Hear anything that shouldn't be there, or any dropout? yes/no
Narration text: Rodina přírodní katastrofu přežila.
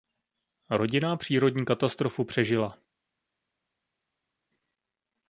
no